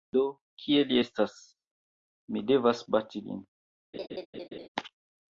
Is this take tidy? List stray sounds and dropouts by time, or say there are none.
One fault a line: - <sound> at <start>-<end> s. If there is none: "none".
- laugh at 3.9-4.7 s